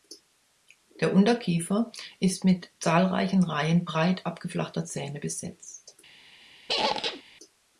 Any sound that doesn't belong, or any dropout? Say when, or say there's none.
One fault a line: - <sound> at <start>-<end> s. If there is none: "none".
- squeak at 6.7-7.2 s